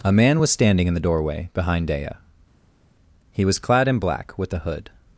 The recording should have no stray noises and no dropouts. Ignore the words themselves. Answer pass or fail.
pass